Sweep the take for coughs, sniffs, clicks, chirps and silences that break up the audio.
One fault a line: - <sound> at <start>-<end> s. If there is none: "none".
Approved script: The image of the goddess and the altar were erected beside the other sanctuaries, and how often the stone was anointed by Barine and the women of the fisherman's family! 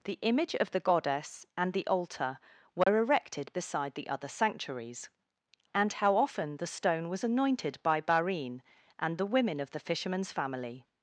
- dropout at 2.8-2.9 s